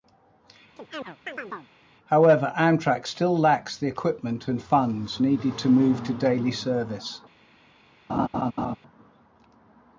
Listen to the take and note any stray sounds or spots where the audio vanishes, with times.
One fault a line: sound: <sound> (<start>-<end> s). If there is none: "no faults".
sound: chirp (0.8-1.7 s)
sound: laugh (8.1-8.8 s)